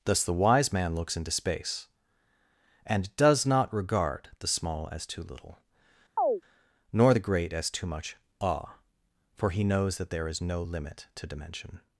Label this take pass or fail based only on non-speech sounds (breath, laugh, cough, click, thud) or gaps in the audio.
fail